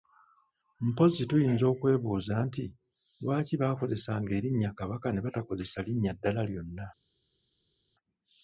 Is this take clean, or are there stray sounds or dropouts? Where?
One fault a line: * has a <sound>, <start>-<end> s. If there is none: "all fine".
all fine